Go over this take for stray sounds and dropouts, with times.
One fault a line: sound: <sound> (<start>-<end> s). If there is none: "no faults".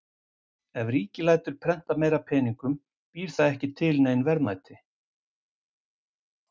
no faults